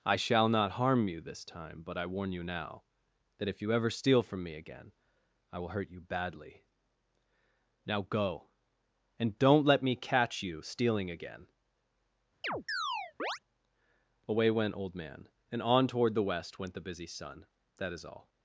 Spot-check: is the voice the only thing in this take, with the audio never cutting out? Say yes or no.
no